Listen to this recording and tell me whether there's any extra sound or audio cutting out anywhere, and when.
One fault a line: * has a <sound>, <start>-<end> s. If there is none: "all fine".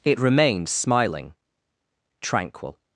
all fine